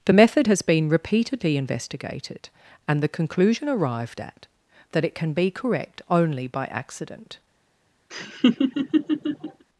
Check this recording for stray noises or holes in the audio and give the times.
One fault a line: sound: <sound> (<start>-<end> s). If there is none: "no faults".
sound: laugh (8.1-9.6 s)